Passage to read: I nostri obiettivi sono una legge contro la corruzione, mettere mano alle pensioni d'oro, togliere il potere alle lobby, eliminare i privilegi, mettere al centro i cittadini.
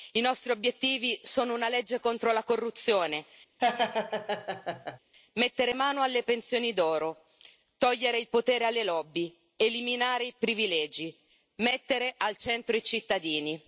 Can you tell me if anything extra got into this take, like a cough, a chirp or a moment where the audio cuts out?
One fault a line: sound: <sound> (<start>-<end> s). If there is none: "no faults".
sound: laugh (3.6-5.0 s)